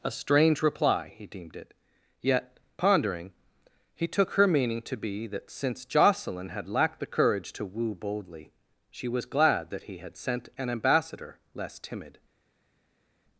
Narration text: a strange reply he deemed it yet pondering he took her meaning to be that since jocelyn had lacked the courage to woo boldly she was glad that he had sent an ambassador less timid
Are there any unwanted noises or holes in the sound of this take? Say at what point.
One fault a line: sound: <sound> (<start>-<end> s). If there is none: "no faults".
no faults